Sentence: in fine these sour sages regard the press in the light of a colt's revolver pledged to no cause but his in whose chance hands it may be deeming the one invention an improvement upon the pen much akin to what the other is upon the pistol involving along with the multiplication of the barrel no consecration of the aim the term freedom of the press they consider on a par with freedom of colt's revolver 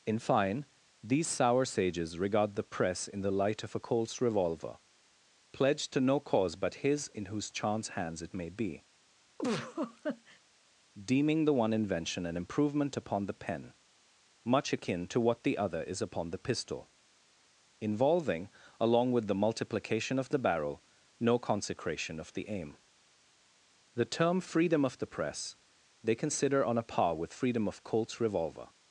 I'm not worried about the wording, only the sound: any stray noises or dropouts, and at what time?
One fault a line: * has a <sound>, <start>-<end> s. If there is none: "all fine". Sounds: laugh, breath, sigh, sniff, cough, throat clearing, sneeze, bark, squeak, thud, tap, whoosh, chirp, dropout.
* has a laugh, 9.4-10.4 s